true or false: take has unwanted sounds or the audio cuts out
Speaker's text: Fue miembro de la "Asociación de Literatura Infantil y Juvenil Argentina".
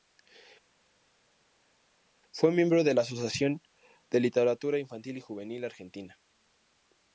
false